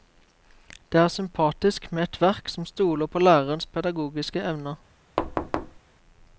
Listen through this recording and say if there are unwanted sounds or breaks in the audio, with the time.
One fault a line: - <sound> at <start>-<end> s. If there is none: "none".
- thud at 5.2-5.8 s